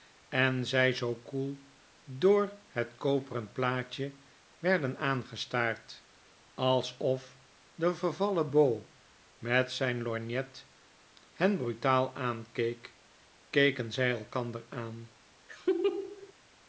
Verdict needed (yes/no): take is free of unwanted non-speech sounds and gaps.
no